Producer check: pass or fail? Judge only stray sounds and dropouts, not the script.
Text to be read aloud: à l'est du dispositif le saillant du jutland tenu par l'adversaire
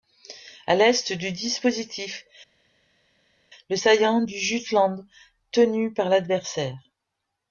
pass